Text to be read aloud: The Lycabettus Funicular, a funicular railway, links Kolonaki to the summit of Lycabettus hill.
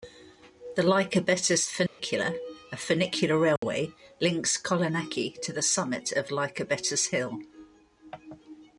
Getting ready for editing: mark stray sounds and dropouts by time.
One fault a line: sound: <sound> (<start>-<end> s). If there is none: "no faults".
sound: dropout (1.9-2.0 s)
sound: dropout (3.6-3.6 s)